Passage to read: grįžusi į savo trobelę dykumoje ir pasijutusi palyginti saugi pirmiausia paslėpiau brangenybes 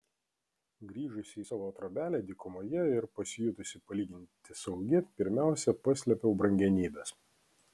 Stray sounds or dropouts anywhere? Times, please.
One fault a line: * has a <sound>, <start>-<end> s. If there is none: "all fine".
all fine